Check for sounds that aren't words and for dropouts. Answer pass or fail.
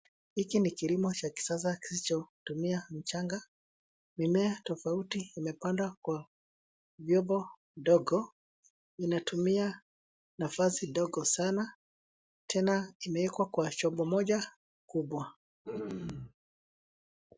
fail